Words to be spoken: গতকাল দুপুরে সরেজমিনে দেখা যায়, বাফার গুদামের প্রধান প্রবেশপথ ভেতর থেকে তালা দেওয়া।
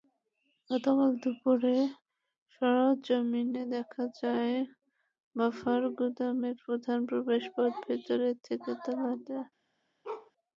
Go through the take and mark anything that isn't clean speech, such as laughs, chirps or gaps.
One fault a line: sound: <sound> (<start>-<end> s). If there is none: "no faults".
sound: bark (10.0-10.3 s)